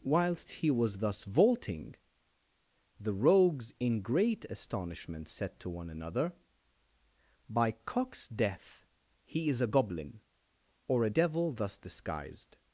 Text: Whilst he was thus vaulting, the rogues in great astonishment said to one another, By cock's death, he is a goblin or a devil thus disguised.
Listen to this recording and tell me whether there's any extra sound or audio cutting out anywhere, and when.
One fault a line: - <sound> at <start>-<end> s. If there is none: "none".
none